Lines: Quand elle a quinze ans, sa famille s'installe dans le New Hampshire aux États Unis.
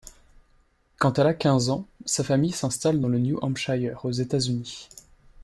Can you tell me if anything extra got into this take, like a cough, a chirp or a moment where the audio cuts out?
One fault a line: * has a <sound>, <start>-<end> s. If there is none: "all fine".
all fine